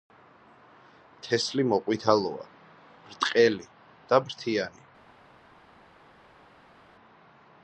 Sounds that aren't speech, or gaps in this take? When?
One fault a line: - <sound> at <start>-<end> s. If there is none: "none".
none